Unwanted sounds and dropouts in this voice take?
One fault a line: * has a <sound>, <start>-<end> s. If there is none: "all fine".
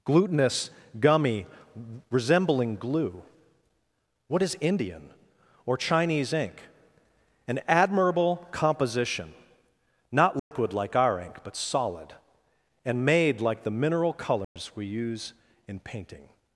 * has a dropout, 10.4-10.5 s
* has a dropout, 14.4-14.6 s